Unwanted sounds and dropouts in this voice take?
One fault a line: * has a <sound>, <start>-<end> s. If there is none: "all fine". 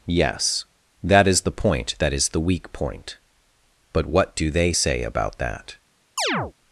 * has a chirp, 6.2-6.5 s